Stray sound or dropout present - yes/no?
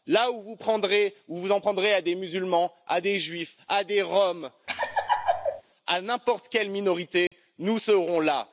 yes